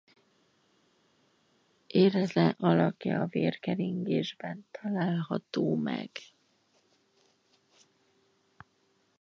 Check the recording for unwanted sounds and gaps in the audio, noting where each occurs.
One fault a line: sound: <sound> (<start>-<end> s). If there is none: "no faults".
no faults